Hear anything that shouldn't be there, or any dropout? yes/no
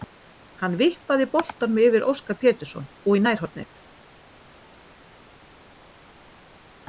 no